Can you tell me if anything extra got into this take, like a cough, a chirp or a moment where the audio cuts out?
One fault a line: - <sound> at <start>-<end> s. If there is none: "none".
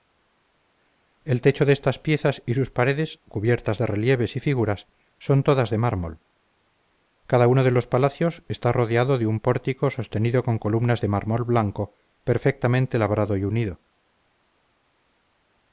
none